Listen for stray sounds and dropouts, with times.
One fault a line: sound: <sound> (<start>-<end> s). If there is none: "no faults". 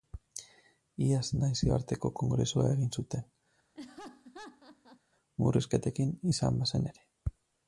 sound: laugh (3.8-5.0 s)